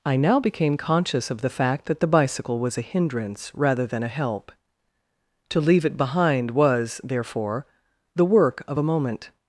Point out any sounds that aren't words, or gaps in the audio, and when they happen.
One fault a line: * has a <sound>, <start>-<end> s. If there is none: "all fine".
all fine